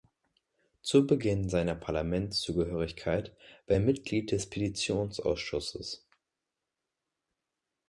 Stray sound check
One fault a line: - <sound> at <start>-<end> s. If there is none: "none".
none